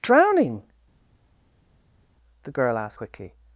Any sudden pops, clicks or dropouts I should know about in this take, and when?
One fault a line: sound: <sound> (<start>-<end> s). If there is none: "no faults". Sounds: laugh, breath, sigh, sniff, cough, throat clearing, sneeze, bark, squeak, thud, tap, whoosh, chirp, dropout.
no faults